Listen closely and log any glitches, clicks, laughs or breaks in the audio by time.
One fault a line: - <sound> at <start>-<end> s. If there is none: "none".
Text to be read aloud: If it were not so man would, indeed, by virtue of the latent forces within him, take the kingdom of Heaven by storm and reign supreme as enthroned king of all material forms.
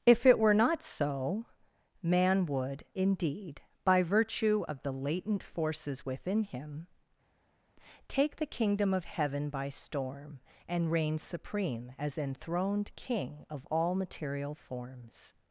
none